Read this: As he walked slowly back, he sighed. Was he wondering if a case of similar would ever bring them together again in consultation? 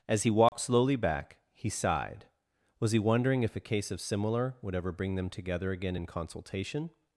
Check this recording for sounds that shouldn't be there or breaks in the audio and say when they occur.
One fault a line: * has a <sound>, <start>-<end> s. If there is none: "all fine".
* has a dropout, 0.5-0.5 s